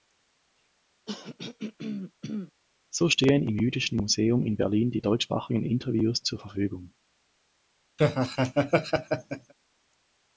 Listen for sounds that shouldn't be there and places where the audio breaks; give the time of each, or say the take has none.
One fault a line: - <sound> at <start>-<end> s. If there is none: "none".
- throat clearing at 1.1-2.5 s
- laugh at 8.0-9.5 s